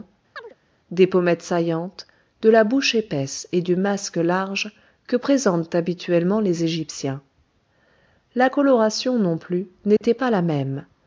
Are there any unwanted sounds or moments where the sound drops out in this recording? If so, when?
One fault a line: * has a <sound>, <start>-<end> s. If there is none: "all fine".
* has a chirp, 0.4-0.6 s
* has a dropout, 10.0-10.0 s